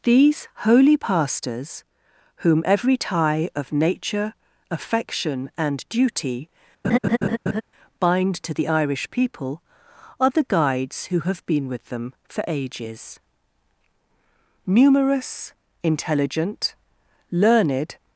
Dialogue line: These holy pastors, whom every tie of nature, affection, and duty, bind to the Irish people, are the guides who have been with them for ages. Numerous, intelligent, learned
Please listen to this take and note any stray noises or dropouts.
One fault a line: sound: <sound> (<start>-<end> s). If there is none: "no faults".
sound: laugh (6.8-7.6 s)